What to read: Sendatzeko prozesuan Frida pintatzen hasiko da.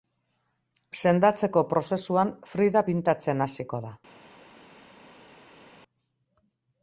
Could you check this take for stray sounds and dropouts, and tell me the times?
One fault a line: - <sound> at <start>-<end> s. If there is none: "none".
none